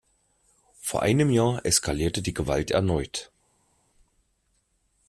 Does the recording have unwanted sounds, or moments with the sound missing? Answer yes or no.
no